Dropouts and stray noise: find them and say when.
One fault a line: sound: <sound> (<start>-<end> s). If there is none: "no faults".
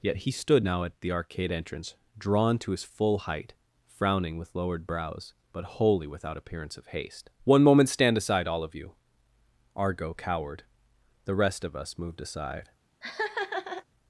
sound: laugh (13.0-13.8 s)